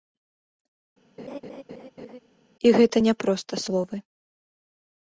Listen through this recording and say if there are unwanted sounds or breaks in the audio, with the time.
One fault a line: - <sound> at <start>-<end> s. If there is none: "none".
- laugh at 1.2-2.2 s